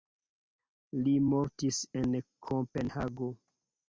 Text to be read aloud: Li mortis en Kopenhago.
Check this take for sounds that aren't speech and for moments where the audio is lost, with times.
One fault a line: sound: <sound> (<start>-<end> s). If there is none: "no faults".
no faults